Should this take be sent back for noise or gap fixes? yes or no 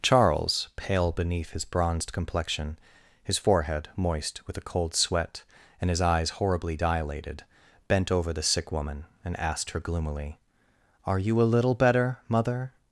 no